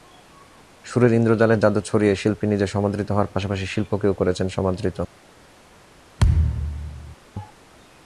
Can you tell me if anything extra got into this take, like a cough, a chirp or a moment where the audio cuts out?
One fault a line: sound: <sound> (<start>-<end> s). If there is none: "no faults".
sound: thud (6.2-7.2 s)